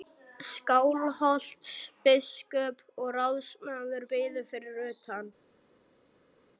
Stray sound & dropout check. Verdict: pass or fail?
pass